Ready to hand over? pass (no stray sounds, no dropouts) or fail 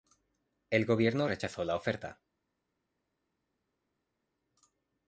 pass